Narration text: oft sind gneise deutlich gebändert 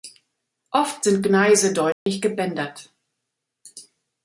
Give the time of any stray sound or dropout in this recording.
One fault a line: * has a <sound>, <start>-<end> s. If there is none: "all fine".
* has a dropout, 1.9-2.1 s